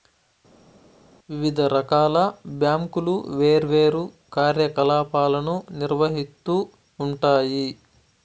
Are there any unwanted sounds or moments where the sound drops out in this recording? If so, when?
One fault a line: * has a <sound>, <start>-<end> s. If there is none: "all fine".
all fine